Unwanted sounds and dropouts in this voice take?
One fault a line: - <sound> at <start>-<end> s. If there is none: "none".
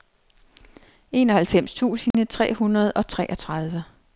- dropout at 2.1-2.1 s